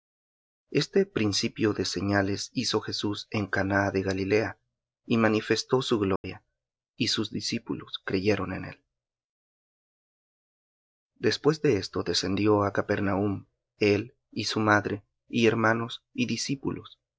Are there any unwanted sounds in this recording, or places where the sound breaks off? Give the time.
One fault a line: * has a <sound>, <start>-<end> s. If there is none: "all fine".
* has a dropout, 6.2-6.2 s